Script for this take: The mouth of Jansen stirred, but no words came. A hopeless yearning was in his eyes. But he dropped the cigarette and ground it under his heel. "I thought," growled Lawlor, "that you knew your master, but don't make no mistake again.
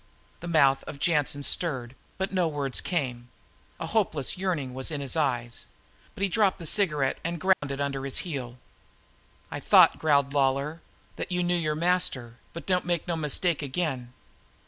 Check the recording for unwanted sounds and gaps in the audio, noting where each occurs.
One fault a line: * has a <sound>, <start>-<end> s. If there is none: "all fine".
* has a dropout, 7.5-7.6 s